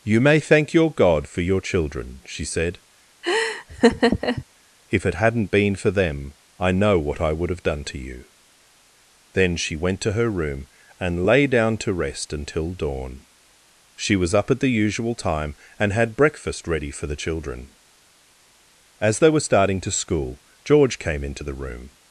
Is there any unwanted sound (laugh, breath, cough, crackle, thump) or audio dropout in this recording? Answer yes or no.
yes